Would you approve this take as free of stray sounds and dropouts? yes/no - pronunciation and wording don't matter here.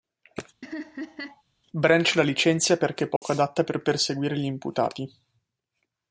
no